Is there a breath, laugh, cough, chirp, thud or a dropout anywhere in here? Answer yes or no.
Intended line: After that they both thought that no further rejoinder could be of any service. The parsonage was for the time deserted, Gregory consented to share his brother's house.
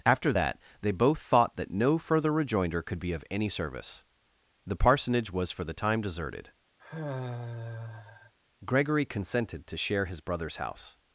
yes